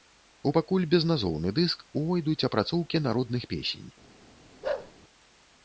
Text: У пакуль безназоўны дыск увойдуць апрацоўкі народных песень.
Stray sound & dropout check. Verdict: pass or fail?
fail